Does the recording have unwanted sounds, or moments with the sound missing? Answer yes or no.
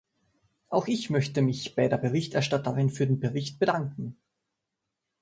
no